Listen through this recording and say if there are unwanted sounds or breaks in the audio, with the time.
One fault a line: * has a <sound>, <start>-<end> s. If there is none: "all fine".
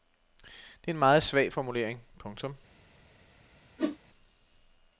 * has a whoosh, 3.8-4.0 s